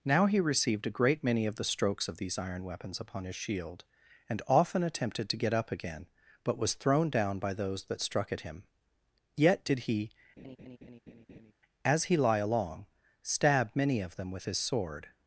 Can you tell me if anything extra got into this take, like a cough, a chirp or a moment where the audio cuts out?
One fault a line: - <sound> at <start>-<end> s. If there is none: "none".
- laugh at 10.4-11.5 s